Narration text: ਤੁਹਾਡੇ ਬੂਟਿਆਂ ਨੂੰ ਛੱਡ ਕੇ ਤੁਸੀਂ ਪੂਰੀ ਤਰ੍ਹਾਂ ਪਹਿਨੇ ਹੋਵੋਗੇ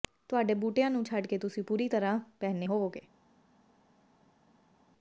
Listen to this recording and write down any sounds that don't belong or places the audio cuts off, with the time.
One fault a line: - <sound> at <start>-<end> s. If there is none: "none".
none